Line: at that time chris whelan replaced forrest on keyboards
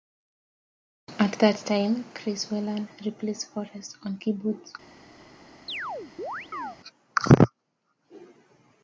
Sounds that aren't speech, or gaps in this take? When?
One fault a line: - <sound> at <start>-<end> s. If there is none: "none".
- chirp at 5.7-6.8 s